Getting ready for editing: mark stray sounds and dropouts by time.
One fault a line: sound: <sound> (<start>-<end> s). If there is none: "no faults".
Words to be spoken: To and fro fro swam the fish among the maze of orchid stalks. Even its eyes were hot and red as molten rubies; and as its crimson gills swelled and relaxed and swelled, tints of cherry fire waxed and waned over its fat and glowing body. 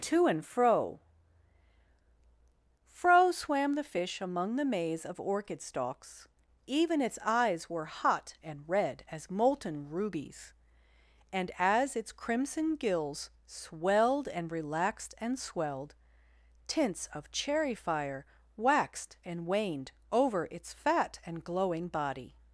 no faults